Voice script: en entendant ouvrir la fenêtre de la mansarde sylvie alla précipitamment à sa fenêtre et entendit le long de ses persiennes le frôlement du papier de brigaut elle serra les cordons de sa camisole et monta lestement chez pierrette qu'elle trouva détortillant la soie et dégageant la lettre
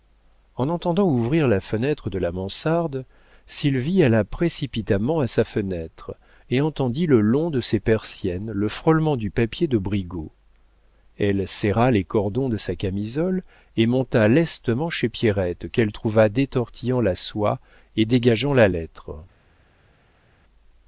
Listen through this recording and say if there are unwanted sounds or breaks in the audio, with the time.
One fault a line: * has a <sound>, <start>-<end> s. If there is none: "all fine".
all fine